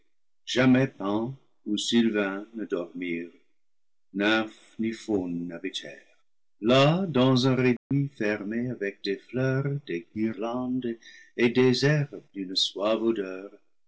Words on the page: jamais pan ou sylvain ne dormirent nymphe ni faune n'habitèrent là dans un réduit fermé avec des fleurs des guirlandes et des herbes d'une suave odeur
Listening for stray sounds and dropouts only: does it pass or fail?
fail